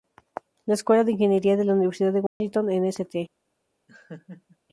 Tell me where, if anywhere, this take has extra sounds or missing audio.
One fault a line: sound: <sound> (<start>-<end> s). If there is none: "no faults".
sound: dropout (2.3-2.4 s)
sound: laugh (3.9-4.6 s)